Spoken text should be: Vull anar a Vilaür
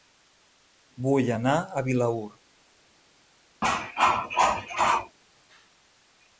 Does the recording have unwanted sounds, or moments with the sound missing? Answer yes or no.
yes